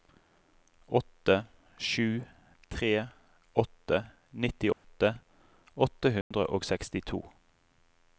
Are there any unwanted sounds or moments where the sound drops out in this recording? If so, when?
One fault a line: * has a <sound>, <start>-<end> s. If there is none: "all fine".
* has a dropout, 4.7-4.8 s
* has a dropout, 6.2-6.3 s